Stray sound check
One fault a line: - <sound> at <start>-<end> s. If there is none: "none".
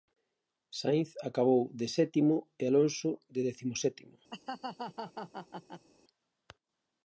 - laugh at 4.3-5.9 s